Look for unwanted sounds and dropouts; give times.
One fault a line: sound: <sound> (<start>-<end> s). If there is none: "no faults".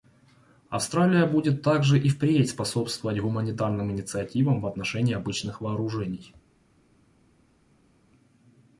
no faults